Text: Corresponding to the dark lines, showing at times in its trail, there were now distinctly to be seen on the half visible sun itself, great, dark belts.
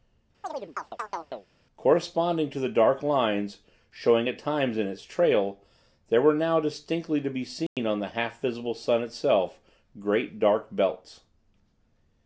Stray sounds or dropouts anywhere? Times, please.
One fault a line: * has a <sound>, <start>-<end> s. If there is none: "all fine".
* has a chirp, 0.4-1.5 s
* has a dropout, 7.7-7.8 s